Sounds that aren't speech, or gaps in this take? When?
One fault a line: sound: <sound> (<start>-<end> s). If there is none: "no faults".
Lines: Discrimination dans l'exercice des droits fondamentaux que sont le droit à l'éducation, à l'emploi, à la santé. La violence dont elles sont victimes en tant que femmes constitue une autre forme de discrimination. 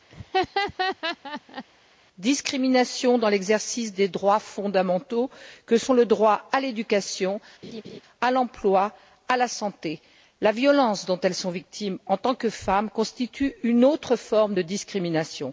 sound: laugh (0.1-1.6 s)
sound: laugh (7.6-8.0 s)